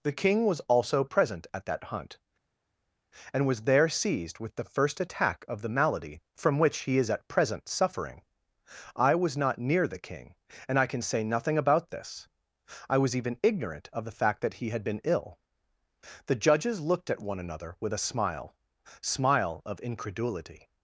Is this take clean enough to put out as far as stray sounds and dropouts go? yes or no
yes